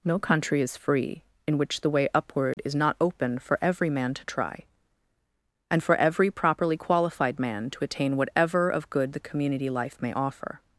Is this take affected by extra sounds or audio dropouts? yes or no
yes